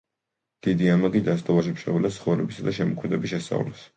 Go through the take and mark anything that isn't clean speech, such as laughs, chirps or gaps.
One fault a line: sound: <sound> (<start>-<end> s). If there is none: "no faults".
no faults